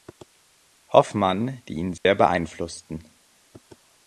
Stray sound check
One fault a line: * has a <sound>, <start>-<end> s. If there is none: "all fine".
* has a dropout, 2.0-2.1 s